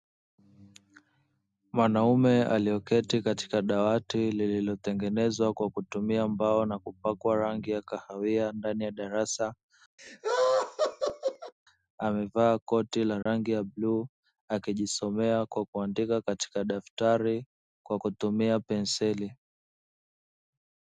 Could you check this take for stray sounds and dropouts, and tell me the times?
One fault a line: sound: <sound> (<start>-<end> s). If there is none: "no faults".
sound: laugh (10.0-11.5 s)
sound: dropout (13.2-13.3 s)